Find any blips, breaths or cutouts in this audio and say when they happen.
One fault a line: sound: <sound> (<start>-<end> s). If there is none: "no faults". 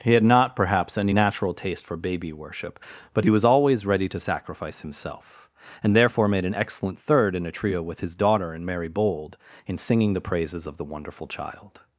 no faults